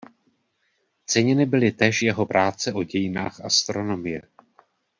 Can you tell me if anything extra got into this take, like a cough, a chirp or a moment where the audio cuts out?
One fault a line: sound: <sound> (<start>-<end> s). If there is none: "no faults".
no faults